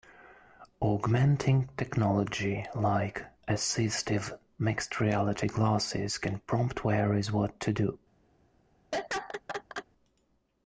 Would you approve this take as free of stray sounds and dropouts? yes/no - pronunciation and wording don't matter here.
no